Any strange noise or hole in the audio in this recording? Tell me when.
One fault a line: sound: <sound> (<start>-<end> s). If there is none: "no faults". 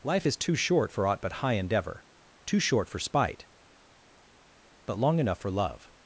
no faults